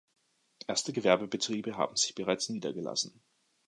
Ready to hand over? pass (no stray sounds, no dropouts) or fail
pass